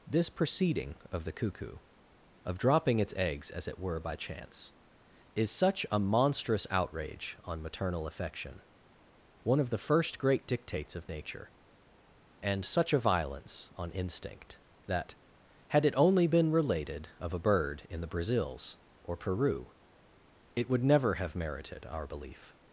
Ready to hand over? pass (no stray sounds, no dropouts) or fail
pass